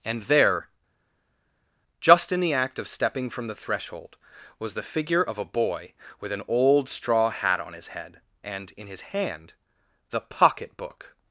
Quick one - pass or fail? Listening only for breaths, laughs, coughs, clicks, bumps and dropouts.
pass